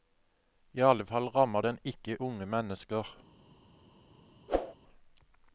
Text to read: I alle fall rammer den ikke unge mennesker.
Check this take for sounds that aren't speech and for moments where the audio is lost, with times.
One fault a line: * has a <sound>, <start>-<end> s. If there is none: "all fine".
* has a whoosh, 4.5-4.7 s